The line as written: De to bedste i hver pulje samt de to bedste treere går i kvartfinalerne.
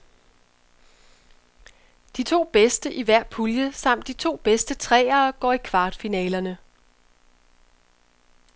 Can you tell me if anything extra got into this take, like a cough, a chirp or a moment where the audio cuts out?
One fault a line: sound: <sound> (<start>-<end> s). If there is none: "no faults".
no faults